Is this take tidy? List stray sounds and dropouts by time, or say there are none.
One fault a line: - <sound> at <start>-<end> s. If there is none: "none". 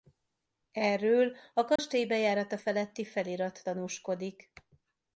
- dropout at 1.8-1.8 s